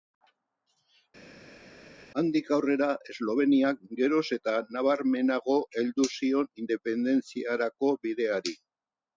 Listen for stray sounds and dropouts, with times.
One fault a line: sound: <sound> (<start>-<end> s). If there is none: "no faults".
no faults